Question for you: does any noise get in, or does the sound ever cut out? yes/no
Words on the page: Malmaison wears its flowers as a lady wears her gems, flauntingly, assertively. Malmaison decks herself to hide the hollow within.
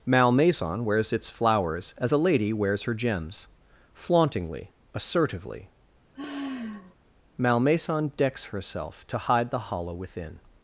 yes